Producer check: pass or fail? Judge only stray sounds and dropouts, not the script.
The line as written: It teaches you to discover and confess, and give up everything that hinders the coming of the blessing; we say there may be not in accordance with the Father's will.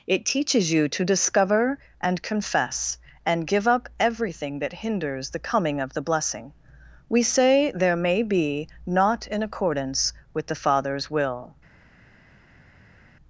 pass